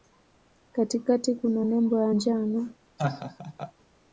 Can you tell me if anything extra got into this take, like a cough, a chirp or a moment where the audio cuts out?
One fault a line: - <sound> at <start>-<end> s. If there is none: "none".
- laugh at 3.0-3.7 s